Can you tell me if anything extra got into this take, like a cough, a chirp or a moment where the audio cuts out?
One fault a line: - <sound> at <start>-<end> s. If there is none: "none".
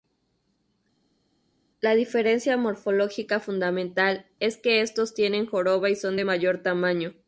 none